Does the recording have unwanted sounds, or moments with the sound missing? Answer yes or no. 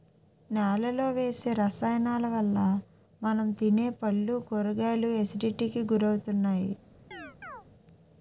yes